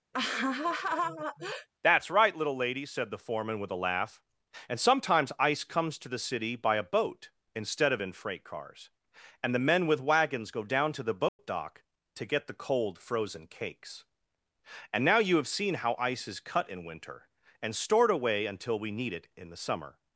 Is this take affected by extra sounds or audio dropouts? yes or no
yes